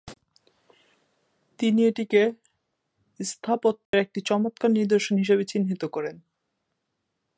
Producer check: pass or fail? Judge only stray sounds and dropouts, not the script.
fail